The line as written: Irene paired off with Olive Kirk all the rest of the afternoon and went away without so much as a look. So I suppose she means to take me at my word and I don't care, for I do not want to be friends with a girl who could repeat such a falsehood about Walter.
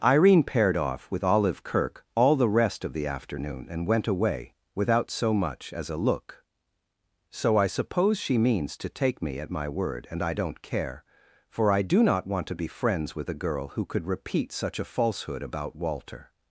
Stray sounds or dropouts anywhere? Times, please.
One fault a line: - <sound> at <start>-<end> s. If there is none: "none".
none